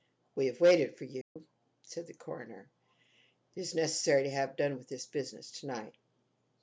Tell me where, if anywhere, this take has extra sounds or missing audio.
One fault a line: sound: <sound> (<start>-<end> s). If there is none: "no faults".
sound: dropout (1.2-1.4 s)